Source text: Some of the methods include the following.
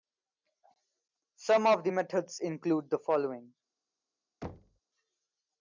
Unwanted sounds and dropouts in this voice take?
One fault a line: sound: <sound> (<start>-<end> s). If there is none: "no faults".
sound: thud (4.4-4.8 s)